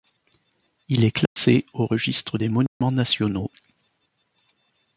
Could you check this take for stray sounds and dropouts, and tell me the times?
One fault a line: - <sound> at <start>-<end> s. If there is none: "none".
- dropout at 1.3-1.4 s
- dropout at 2.7-2.8 s